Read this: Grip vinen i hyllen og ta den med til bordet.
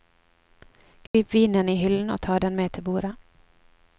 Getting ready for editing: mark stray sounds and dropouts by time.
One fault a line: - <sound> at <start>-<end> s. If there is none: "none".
- dropout at 1.1-1.1 s